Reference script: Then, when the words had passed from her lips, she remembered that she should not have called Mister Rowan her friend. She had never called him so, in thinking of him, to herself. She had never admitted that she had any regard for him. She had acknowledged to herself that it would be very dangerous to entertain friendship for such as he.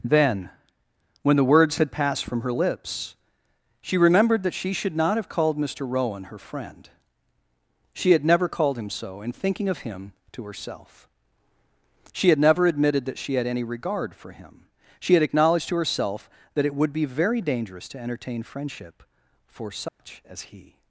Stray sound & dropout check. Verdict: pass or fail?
fail